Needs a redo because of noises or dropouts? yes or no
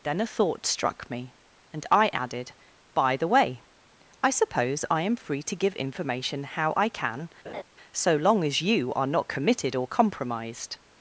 yes